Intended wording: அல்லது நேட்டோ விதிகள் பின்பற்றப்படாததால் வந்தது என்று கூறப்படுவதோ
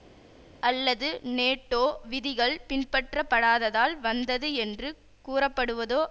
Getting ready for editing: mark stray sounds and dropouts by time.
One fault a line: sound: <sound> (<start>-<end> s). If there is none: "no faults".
no faults